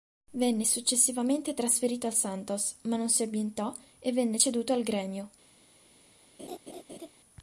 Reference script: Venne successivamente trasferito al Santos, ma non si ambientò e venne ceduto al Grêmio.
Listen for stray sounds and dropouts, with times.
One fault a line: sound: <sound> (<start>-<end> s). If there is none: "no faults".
sound: laugh (6.4-7.1 s)